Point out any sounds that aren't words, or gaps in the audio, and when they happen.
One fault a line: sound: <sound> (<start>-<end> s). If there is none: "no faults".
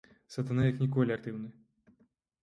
no faults